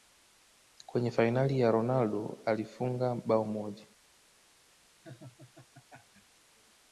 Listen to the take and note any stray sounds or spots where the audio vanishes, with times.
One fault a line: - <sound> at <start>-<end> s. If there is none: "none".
- laugh at 5.0-6.4 s